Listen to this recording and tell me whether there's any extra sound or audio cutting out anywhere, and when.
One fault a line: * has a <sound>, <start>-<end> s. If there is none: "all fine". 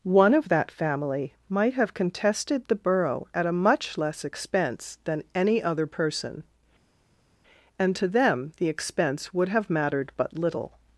all fine